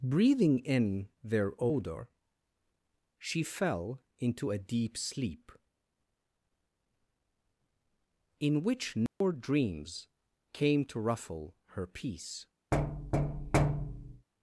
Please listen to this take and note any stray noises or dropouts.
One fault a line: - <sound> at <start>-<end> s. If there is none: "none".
- dropout at 9.1-9.2 s
- thud at 12.7-14.3 s